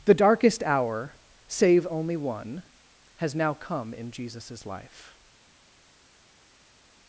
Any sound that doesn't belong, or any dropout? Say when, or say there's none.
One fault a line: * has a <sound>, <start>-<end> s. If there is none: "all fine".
all fine